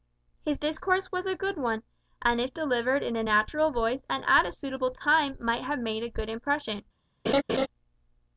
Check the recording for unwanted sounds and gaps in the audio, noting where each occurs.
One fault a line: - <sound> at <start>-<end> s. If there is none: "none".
- laugh at 7.3-7.7 s